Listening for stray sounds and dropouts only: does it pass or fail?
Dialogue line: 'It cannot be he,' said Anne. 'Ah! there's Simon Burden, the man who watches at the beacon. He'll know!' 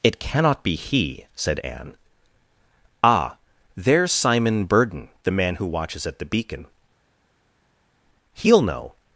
pass